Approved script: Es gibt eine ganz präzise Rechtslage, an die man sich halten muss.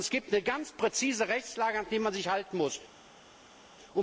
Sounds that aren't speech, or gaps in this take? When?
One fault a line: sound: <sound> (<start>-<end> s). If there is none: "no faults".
no faults